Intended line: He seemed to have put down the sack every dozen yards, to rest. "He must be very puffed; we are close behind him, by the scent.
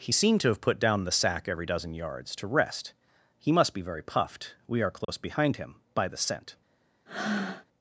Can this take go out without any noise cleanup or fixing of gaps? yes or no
no